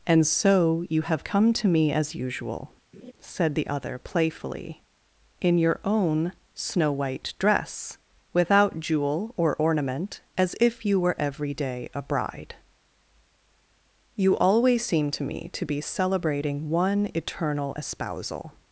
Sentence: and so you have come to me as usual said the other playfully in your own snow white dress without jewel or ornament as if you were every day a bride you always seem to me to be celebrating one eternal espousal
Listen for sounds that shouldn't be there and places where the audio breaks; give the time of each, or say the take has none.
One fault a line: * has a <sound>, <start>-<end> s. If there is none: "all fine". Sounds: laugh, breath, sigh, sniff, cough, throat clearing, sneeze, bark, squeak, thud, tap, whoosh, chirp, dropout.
* has a laugh, 2.9-3.1 s